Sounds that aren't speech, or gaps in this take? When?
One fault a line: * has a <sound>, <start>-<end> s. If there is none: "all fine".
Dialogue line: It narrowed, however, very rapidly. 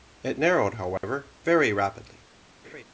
* has a dropout, 1.0-1.0 s
* has a laugh, 2.6-2.8 s